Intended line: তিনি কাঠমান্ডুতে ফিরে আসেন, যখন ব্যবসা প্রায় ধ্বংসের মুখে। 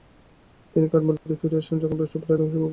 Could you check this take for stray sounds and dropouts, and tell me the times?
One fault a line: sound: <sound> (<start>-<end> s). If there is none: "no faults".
sound: dropout (1.2-1.3 s)